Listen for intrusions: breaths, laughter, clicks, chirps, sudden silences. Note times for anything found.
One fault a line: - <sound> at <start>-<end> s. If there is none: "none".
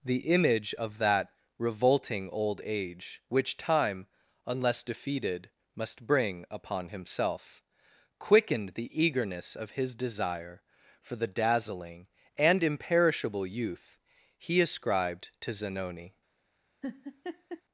- laugh at 16.8-17.6 s